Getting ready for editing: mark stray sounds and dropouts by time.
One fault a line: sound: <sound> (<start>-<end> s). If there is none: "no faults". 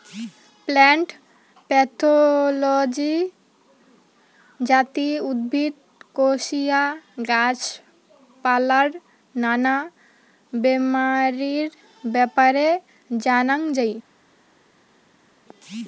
no faults